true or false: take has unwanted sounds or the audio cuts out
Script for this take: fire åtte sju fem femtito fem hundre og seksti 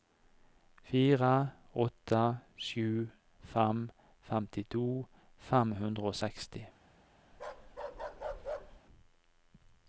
true